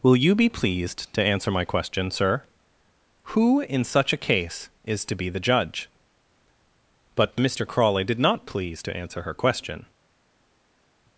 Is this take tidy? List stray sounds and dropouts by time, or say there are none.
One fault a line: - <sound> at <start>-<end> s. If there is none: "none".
none